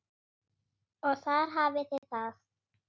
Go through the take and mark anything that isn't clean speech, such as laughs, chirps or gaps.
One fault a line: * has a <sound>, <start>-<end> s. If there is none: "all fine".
* has a dropout, 2.0-2.0 s